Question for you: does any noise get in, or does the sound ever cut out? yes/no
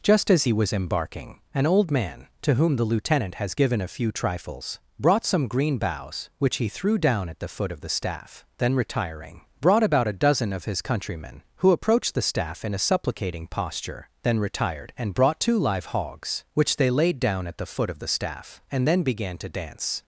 no